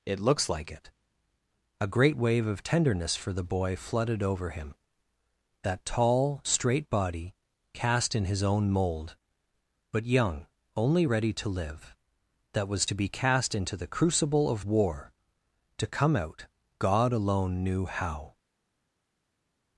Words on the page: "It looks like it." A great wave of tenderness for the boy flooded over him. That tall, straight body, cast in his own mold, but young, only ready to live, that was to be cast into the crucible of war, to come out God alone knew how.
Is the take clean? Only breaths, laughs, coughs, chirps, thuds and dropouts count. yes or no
yes